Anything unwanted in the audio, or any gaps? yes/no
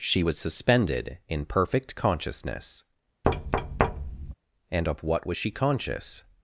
yes